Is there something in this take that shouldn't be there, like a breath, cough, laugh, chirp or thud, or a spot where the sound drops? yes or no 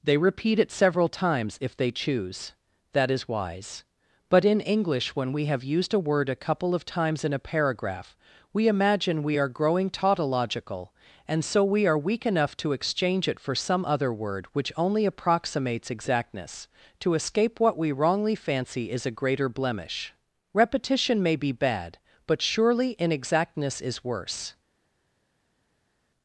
no